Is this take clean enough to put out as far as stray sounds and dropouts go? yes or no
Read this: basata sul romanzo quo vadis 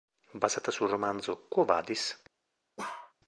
no